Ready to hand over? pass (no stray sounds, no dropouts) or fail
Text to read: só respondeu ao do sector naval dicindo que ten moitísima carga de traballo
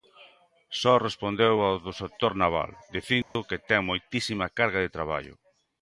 fail